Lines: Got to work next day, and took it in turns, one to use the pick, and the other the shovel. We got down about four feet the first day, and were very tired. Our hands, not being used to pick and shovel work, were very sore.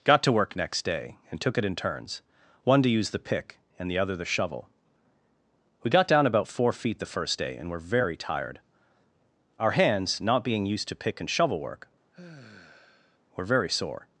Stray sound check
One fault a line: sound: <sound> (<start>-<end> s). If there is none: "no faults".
sound: sigh (12.1-13.2 s)